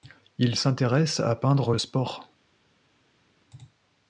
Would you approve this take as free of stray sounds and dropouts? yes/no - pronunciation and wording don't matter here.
yes